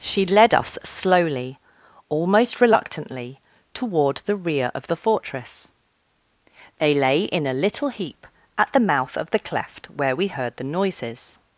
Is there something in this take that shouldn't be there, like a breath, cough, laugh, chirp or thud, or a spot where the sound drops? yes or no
no